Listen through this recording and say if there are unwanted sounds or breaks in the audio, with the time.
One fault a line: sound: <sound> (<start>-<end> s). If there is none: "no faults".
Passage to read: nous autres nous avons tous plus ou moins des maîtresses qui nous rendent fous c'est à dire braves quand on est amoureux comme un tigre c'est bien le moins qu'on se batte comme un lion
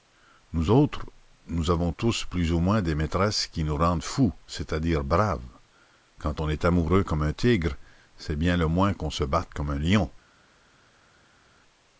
no faults